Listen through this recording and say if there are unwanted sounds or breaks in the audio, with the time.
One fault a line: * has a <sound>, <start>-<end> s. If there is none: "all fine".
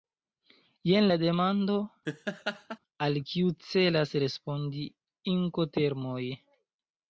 * has a laugh, 2.0-2.8 s